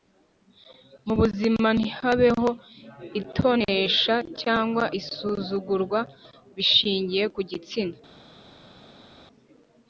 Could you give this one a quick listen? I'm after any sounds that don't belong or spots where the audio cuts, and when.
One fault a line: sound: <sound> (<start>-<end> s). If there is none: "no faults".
no faults